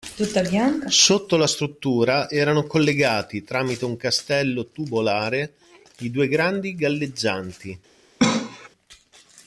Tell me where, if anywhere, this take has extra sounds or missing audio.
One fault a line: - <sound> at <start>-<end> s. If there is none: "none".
- cough at 8.2-8.7 s